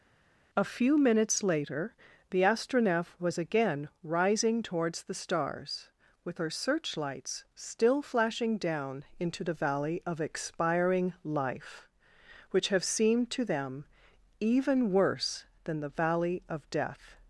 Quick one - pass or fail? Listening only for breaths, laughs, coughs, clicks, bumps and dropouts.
pass